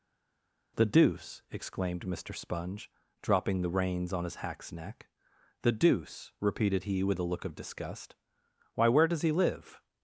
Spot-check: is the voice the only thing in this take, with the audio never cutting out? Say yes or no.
yes